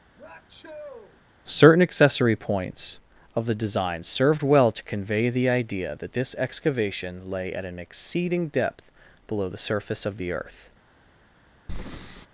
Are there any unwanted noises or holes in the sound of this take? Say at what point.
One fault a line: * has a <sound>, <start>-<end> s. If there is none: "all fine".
* has a sneeze, 0.2-1.2 s
* has a breath, 11.7-12.3 s